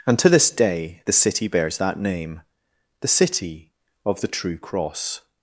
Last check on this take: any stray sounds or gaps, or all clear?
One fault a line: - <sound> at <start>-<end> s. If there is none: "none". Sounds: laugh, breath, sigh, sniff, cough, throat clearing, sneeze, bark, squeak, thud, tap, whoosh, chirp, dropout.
none